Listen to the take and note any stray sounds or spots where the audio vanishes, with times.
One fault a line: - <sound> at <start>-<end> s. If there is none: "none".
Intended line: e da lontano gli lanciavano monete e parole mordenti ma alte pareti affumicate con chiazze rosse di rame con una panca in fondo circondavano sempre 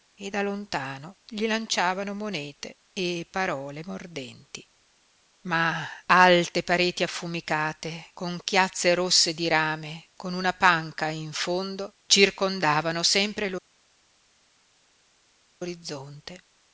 none